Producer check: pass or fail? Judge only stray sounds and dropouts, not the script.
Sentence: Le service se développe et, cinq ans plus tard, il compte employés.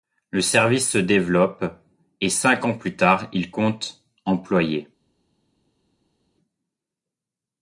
pass